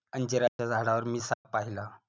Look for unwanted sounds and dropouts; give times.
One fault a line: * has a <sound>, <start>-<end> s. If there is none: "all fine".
* has a dropout, 0.5-0.6 s
* has a dropout, 1.3-1.4 s